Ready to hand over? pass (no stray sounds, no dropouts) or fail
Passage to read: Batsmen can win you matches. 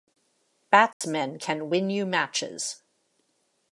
fail